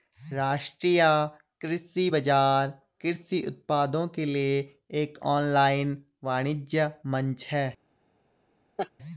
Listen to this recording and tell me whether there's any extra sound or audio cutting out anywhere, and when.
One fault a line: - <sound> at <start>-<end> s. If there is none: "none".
- laugh at 8.8-8.9 s